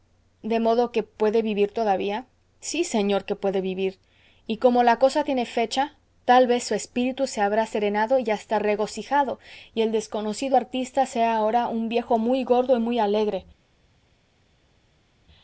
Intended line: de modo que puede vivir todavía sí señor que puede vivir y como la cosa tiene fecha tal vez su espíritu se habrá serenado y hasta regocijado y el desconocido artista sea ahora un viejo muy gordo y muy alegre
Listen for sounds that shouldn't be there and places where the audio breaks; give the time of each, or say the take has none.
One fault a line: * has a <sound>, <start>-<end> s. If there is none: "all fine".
all fine